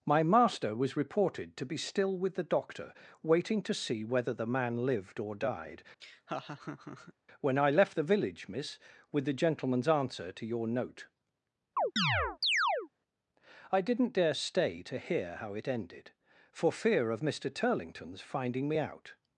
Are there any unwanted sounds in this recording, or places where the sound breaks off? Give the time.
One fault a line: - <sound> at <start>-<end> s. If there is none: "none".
- laugh at 6.0-7.1 s
- chirp at 11.8-12.9 s